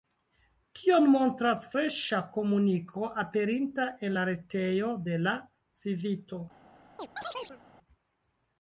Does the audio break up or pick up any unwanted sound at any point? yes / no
yes